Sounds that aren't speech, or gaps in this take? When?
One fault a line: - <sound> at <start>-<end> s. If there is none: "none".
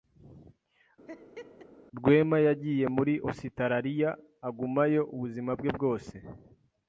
- laugh at 1.1-1.7 s